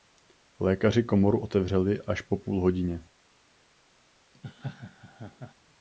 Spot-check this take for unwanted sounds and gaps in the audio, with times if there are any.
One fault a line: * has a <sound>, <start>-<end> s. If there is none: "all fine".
* has a laugh, 4.3-5.5 s